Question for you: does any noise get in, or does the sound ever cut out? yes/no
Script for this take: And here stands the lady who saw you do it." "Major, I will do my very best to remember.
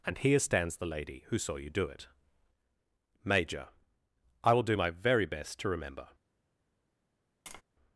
yes